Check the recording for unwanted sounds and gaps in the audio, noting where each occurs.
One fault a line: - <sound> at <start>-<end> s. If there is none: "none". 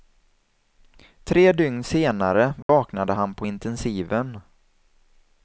- dropout at 2.6-2.7 s